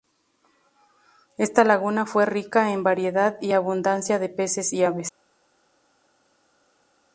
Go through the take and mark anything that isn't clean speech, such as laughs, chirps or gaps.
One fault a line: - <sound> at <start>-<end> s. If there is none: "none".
none